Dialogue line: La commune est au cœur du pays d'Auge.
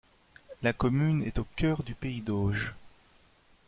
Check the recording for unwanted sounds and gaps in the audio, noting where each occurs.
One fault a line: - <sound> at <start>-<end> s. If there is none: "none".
none